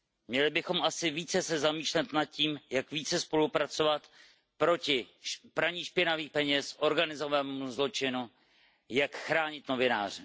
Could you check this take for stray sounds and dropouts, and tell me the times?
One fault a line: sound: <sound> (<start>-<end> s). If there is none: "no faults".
no faults